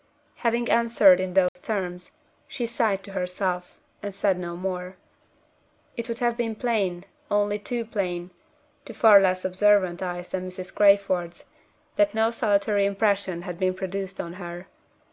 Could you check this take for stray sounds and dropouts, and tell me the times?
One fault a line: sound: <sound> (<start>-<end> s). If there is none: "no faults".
sound: dropout (1.5-1.6 s)